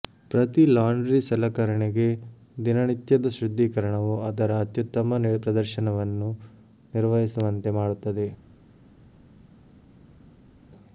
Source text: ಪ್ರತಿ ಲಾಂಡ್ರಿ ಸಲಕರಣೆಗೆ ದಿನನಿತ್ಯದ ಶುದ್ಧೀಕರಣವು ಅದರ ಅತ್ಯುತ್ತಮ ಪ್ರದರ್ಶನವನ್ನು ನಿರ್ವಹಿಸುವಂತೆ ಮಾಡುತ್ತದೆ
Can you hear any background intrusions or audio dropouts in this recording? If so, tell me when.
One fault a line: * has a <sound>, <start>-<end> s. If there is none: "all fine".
all fine